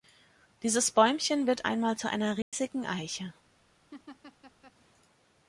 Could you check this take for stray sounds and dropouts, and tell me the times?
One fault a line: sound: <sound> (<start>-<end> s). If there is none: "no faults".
sound: dropout (2.4-2.5 s)
sound: laugh (3.9-4.7 s)